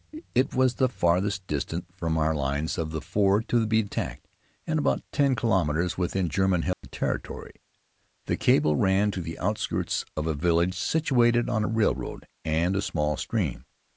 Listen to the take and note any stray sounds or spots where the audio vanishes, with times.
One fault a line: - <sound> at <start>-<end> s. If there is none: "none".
- dropout at 6.7-6.8 s